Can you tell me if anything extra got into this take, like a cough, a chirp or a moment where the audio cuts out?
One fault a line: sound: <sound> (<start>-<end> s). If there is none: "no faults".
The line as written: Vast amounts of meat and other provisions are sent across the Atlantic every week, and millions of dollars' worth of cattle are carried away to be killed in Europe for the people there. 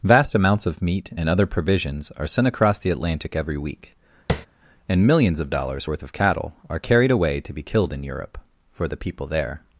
sound: tap (4.3-4.5 s)